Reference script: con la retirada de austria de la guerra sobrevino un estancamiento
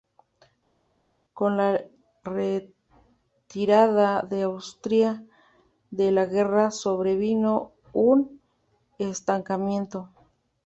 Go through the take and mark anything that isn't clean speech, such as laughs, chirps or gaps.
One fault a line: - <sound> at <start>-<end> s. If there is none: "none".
none